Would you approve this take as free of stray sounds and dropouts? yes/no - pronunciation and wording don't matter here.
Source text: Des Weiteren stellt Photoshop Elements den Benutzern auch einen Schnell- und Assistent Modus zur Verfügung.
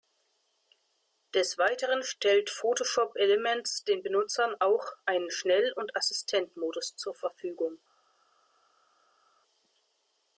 yes